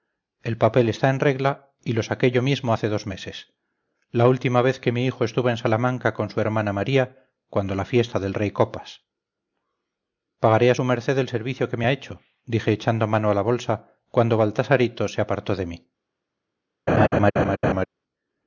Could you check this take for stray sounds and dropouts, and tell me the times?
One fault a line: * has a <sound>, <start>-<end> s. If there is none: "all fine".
* has a laugh, 16.9-17.9 s